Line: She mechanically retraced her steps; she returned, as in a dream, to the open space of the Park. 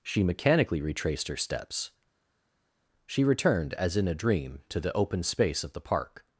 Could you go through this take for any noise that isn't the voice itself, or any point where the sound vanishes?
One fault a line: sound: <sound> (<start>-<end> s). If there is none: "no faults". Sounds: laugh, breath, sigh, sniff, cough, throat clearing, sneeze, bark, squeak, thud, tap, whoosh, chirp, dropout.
no faults